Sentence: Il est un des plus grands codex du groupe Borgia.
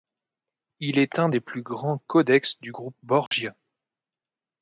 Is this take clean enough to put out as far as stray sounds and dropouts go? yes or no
no